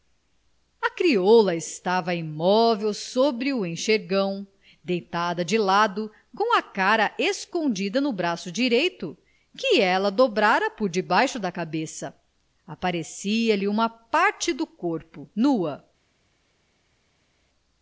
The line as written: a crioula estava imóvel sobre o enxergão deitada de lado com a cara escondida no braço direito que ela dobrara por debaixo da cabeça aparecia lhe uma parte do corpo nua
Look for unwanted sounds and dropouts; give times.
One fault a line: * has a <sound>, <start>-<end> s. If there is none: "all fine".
all fine